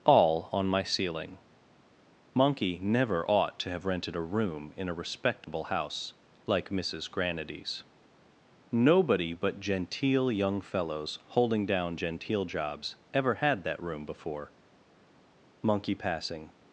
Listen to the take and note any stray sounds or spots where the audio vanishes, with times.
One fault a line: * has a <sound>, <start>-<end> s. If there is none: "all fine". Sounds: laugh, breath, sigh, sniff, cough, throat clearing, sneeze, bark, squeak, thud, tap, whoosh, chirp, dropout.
* has a dropout, 5.4-5.5 s